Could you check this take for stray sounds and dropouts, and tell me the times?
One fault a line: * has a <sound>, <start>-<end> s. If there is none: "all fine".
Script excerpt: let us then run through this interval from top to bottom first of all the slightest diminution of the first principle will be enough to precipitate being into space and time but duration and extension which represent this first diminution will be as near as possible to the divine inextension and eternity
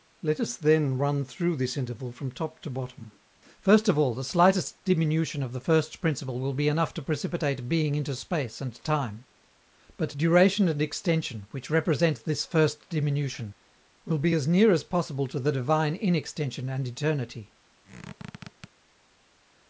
* has a squeak, 17.8-18.7 s